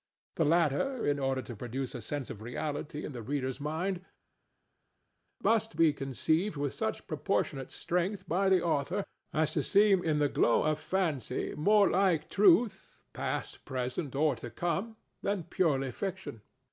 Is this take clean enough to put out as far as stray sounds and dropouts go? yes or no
yes